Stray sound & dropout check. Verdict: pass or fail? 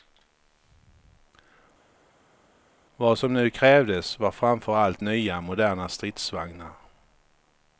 pass